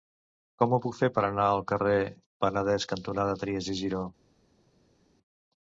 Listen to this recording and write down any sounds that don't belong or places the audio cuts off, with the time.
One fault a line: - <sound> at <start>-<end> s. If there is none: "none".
none